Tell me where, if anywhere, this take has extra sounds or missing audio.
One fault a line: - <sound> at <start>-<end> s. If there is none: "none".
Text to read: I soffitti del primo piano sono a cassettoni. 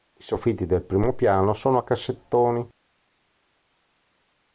none